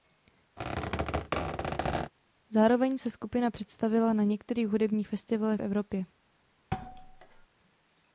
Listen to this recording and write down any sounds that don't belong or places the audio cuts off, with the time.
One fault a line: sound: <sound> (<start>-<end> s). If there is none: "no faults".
sound: squeak (0.6-2.1 s)
sound: thud (6.7-7.5 s)